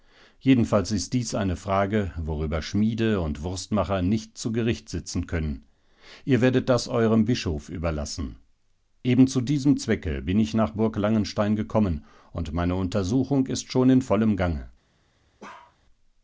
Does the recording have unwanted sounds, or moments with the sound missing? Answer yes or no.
yes